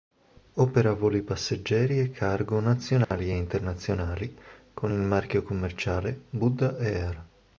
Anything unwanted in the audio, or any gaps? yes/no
yes